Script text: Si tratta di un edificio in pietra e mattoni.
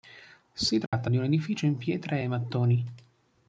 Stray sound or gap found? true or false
true